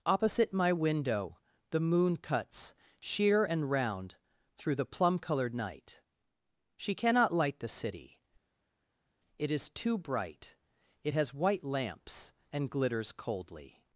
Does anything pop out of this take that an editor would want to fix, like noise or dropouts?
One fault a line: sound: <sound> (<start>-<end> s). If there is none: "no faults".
no faults